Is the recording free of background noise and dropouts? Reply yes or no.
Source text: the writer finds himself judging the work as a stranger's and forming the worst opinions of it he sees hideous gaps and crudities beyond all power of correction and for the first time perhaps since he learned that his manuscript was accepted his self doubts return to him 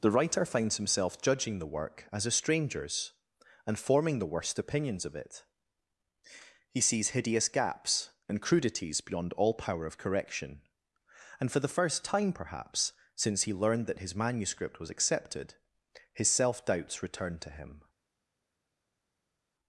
yes